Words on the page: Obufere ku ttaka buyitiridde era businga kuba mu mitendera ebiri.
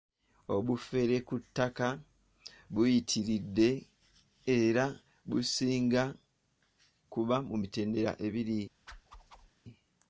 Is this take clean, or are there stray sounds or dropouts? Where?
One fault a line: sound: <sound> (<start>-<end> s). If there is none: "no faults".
sound: whoosh (8.9-9.5 s)